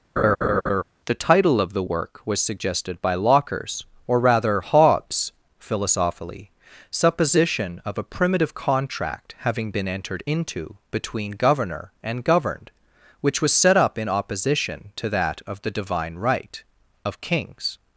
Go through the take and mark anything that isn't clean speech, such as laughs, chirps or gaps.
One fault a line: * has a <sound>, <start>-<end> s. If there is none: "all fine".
* has a laugh, 0.2-0.8 s